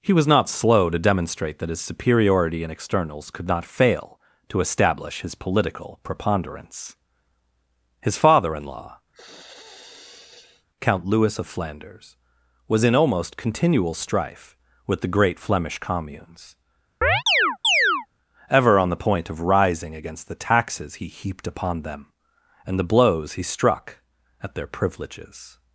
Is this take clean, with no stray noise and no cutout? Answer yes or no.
no